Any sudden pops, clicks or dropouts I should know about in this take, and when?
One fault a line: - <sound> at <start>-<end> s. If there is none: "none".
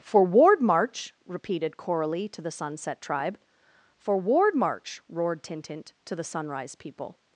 none